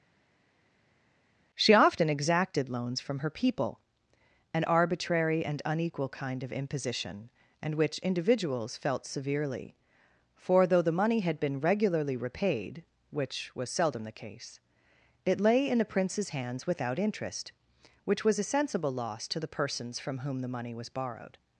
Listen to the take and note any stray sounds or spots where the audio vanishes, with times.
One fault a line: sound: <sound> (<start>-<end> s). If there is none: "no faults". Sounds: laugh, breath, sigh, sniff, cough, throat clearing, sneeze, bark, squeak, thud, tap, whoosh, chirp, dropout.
no faults